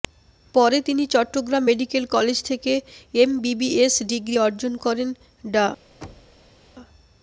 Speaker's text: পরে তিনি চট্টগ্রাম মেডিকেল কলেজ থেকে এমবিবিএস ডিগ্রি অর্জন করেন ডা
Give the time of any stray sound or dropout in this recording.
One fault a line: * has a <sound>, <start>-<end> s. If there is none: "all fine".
* has a thud, 6.0-6.6 s